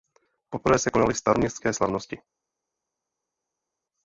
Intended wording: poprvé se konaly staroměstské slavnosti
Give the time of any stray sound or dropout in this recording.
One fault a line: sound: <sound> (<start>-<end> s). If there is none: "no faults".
no faults